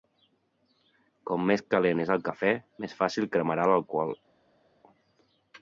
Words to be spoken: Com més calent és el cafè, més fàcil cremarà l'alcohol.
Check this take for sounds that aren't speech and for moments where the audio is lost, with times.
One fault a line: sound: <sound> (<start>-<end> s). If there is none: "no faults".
no faults